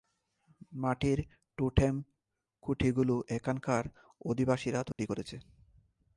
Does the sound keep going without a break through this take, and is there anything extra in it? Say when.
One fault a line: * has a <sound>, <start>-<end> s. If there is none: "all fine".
* has a dropout, 4.9-5.0 s